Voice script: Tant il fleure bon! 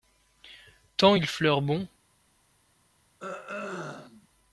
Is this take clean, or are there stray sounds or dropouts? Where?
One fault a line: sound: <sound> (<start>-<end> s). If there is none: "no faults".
sound: throat clearing (3.2-4.3 s)